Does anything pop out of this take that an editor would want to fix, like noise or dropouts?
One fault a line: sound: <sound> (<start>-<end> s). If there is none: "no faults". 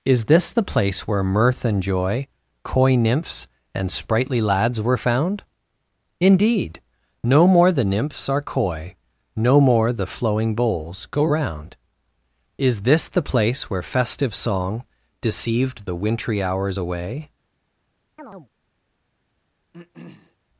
sound: chirp (18.2-18.5 s)
sound: throat clearing (19.7-20.4 s)